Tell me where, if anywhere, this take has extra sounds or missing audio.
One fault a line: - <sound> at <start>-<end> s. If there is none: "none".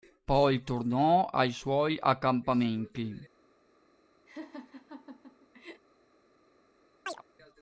- laugh at 4.3-5.8 s
- chirp at 7.1-7.2 s